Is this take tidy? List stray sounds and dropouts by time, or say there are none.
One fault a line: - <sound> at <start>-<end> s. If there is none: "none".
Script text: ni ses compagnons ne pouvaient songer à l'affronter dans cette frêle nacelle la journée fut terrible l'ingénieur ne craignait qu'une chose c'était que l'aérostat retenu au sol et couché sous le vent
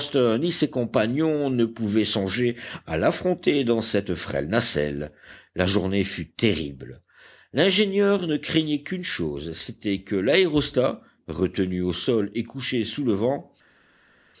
none